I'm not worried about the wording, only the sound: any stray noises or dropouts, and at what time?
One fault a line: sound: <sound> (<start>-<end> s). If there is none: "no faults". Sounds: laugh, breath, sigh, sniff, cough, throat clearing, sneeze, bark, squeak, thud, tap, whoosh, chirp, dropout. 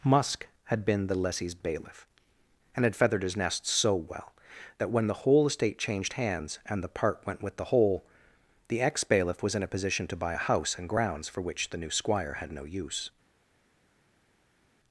no faults